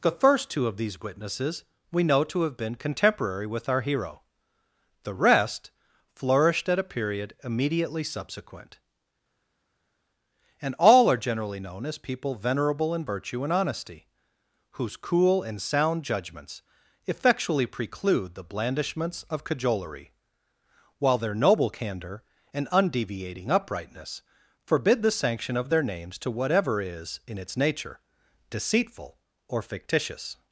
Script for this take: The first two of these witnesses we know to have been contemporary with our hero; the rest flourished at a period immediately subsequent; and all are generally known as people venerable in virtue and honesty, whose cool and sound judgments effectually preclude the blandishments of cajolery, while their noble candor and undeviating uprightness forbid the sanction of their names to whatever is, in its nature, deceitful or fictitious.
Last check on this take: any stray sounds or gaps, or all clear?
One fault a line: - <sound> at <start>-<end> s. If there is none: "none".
none